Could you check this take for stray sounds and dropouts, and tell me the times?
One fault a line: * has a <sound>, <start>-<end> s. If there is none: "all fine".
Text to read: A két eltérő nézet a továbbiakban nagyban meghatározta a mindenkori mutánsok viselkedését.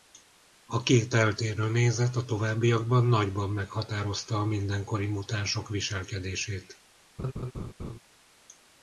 * has a laugh, 7.2-8.0 s